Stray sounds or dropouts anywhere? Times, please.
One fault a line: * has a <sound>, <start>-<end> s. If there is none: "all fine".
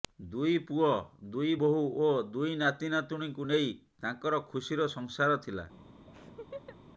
* has a laugh, 6.1-6.8 s